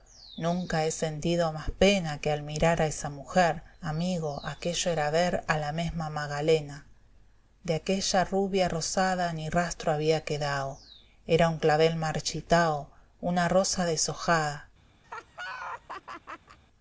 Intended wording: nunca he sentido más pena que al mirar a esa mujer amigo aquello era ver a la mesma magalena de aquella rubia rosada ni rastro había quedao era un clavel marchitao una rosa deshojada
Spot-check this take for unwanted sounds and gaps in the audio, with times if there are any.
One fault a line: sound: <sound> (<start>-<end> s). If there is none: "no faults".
sound: laugh (15.0-16.6 s)